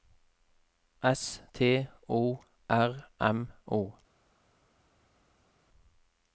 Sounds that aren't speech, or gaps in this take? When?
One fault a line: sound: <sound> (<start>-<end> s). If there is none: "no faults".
no faults